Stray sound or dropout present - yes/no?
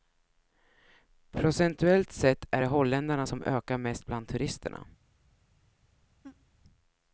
yes